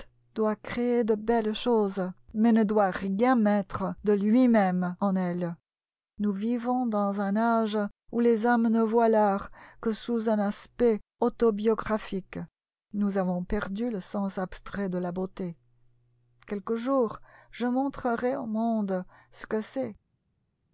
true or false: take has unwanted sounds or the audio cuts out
false